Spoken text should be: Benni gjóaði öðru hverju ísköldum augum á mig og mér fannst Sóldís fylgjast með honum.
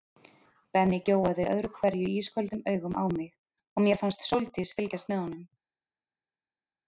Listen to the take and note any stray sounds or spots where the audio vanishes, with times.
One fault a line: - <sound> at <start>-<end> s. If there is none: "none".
none